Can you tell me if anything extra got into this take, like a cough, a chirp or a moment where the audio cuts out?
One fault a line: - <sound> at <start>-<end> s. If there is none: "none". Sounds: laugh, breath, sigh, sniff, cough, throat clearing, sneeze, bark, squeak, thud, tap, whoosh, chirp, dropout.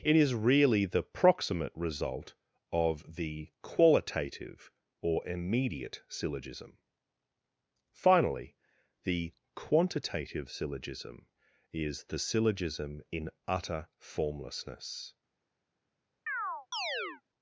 - chirp at 16.3-17.2 s